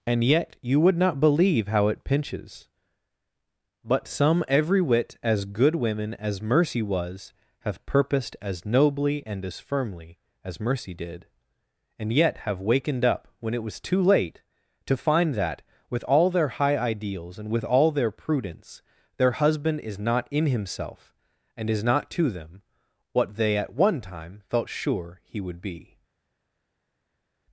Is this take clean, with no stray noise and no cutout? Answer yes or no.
yes